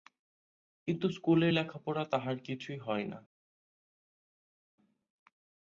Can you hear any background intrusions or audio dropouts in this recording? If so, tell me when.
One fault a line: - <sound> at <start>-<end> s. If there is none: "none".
none